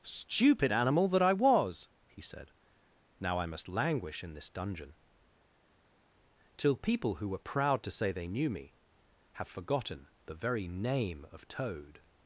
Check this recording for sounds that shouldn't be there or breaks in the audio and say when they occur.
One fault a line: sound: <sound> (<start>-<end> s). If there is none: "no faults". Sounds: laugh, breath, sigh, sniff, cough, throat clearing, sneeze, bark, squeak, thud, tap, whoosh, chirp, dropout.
no faults